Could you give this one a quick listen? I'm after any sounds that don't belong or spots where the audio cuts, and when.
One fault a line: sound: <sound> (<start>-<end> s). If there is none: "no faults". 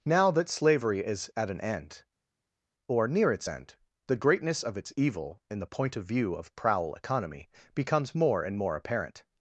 no faults